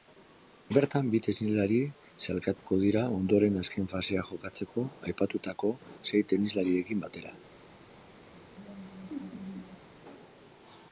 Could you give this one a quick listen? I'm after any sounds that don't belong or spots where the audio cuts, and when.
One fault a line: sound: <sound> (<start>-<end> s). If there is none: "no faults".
sound: dropout (2.6-2.7 s)
sound: laugh (8.3-9.9 s)